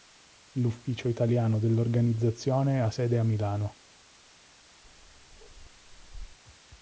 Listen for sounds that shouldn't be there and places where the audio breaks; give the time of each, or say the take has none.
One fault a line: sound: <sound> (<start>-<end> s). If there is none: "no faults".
sound: bark (4.8-6.4 s)